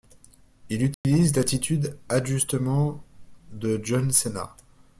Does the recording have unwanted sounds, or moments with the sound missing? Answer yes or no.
yes